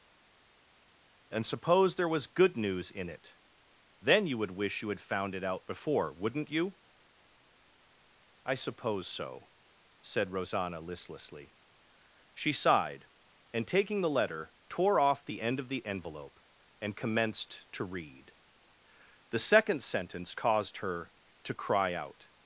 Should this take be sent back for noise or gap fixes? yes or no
no